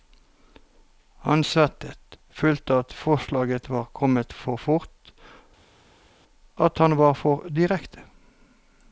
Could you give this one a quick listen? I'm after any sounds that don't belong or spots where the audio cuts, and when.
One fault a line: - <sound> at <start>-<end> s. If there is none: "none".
none